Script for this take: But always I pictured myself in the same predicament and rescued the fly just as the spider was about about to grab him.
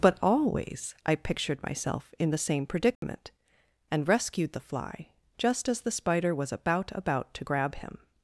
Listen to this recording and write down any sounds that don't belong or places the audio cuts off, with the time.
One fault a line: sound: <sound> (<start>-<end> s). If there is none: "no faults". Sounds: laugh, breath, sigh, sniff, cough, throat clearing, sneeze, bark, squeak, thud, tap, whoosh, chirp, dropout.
sound: dropout (3.0-3.0 s)